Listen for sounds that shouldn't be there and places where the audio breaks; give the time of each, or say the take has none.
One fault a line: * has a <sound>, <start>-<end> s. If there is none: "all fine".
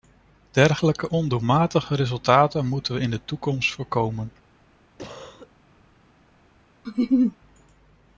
* has a cough, 5.0-5.6 s
* has a laugh, 6.8-7.4 s